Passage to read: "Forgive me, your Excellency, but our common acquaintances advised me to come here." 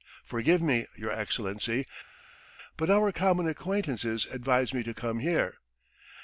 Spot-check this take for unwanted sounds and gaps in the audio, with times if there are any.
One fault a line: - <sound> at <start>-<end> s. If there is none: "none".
none